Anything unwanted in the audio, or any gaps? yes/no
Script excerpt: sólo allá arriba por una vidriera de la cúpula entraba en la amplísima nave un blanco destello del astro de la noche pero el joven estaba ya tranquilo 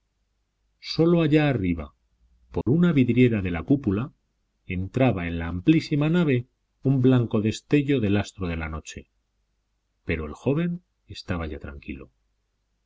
yes